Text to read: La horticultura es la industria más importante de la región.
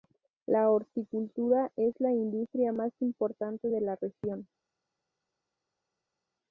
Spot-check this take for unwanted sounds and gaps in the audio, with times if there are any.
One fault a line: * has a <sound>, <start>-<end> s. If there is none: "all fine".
all fine